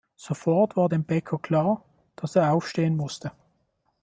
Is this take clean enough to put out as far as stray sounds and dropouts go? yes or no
yes